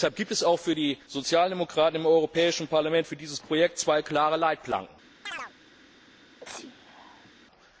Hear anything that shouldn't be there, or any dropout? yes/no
yes